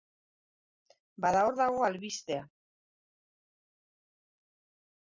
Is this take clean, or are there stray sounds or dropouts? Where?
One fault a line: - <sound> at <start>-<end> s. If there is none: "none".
none